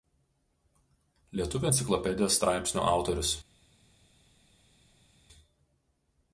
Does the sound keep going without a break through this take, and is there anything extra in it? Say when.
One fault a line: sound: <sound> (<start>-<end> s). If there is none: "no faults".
no faults